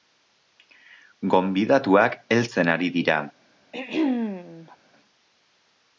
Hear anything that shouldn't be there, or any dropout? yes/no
yes